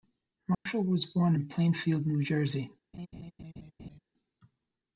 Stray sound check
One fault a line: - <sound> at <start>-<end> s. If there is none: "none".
- dropout at 0.5-0.7 s
- laugh at 2.9-4.0 s